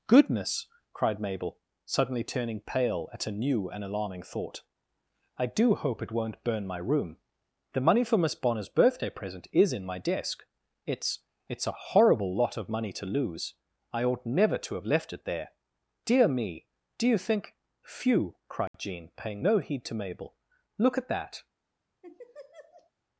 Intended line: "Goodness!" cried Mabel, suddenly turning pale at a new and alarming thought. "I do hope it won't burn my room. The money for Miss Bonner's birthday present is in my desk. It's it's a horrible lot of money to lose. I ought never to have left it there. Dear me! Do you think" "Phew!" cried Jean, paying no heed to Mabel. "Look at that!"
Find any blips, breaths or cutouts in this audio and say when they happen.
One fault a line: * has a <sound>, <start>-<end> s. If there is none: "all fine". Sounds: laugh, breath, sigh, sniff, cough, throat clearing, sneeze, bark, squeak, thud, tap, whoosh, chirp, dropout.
* has a dropout, 18.7-18.7 s
* has a laugh, 22.0-22.9 s